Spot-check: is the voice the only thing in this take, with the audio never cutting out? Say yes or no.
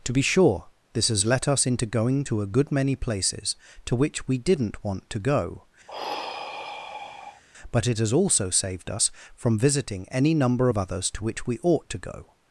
no